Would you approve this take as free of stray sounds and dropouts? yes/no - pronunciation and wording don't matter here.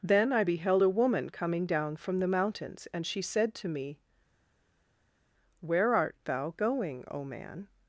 yes